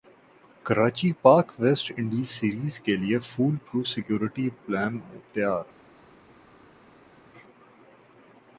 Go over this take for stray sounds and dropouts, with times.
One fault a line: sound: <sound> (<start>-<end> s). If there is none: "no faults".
no faults